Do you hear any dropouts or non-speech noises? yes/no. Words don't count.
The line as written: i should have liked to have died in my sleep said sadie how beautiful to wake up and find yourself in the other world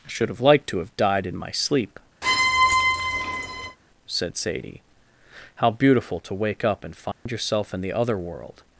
yes